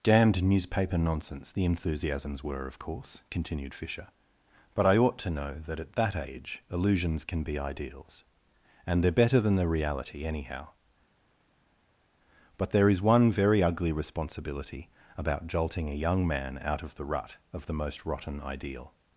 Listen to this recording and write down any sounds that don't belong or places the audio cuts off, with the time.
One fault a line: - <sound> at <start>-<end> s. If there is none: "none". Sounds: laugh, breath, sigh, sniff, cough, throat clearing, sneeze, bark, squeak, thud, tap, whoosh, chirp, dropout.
none